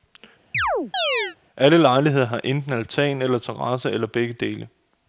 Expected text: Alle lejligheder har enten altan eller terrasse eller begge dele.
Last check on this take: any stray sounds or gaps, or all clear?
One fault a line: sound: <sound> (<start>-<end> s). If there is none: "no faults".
sound: chirp (0.5-1.4 s)